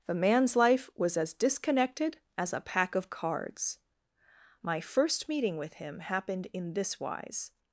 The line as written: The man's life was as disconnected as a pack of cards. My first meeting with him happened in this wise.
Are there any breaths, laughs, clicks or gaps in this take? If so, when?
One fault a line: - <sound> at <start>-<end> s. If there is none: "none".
none